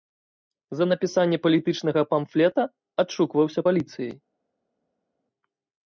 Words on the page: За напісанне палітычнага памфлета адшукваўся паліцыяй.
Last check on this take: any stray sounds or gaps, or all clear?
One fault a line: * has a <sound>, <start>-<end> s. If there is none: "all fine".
all fine